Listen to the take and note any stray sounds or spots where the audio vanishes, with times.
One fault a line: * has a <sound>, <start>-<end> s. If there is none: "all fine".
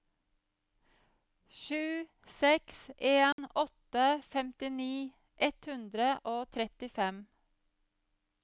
* has a dropout, 3.3-3.4 s